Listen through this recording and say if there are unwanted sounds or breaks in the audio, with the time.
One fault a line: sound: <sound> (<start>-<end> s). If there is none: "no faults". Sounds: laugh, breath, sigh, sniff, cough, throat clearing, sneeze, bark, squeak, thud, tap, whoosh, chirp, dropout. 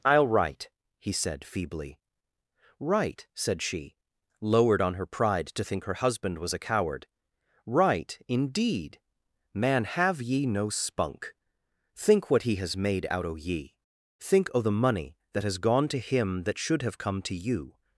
no faults